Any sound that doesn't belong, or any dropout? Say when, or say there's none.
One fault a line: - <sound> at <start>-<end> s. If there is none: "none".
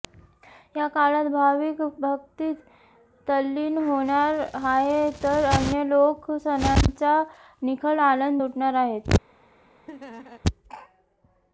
- laugh at 9.9-10.4 s